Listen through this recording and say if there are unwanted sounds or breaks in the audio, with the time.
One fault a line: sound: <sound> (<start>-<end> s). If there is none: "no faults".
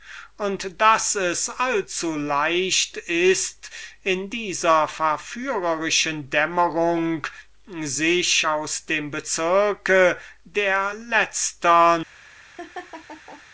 sound: laugh (12.6-13.4 s)